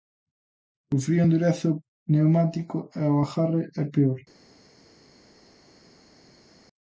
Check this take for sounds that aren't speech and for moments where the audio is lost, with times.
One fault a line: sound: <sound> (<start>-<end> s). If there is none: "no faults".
no faults